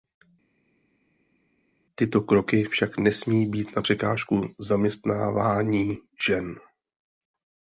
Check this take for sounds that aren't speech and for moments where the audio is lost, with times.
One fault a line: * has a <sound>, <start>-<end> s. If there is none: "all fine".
all fine